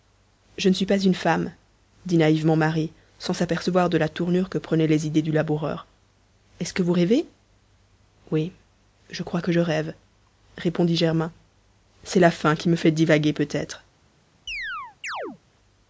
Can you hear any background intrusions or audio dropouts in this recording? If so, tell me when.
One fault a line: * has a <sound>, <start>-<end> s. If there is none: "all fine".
* has a chirp, 14.5-15.4 s